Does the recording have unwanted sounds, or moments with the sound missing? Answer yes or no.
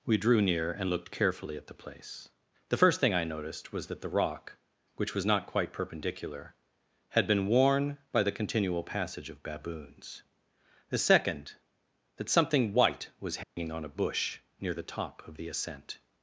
yes